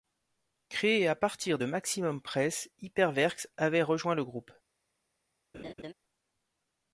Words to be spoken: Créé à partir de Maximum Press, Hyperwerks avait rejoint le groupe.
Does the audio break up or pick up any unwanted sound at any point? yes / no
yes